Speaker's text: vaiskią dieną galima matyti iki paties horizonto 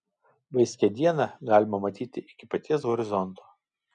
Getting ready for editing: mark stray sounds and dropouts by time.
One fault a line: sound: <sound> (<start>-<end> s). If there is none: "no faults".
no faults